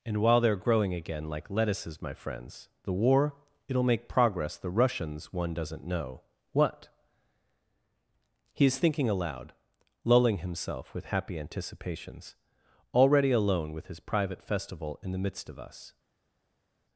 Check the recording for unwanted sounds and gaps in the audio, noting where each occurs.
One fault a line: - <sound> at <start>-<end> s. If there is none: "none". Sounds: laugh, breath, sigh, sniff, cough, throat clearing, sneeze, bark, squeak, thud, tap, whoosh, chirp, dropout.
none